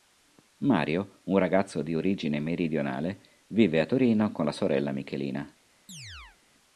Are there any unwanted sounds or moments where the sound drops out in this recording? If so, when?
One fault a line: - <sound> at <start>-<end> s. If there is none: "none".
- chirp at 5.9-6.4 s